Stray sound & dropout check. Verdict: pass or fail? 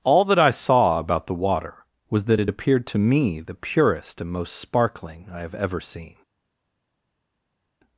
pass